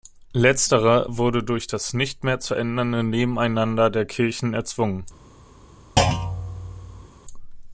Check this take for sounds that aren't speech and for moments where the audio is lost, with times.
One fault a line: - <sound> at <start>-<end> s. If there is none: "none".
- thud at 6.0-7.1 s